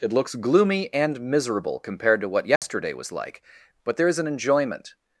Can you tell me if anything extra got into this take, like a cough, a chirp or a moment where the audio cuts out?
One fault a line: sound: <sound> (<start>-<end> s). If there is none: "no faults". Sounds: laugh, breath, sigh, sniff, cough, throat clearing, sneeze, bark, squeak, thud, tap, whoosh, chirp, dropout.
sound: dropout (2.6-2.6 s)